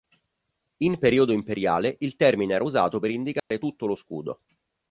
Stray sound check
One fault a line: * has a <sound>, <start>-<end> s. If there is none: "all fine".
* has a dropout, 3.4-3.5 s